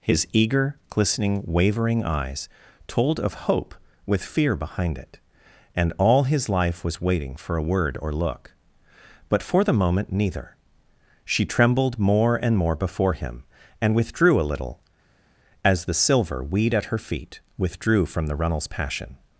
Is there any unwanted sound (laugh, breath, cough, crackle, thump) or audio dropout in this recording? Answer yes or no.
no